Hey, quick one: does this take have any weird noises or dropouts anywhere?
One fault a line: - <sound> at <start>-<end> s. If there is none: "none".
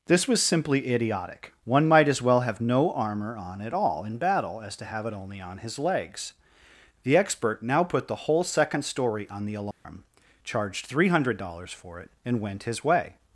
- dropout at 9.7-9.8 s